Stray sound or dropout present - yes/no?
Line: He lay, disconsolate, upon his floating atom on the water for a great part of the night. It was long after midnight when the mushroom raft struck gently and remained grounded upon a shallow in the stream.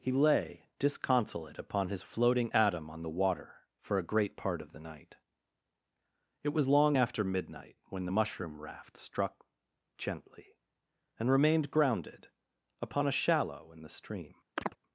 yes